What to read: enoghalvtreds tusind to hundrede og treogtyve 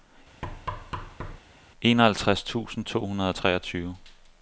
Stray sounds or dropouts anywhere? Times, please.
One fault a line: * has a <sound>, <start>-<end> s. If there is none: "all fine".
* has a thud, 0.4-1.4 s